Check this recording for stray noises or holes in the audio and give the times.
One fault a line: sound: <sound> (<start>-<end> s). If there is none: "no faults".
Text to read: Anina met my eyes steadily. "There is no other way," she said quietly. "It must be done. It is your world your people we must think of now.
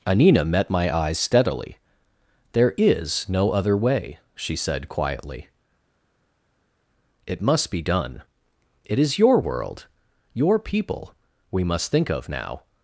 no faults